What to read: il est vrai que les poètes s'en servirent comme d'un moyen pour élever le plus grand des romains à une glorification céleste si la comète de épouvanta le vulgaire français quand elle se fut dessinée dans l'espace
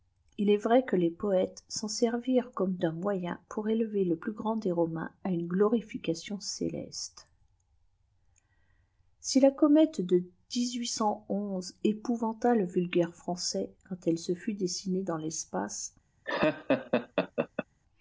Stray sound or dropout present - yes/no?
yes